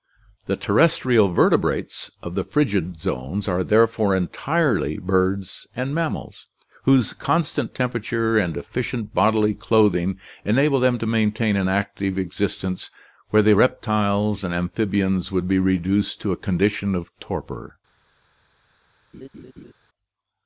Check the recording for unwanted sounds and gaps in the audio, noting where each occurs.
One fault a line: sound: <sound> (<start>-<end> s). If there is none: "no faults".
sound: laugh (19.1-19.7 s)